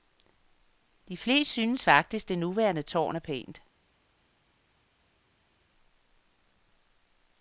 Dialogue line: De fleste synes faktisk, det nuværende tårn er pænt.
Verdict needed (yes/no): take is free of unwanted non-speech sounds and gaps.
yes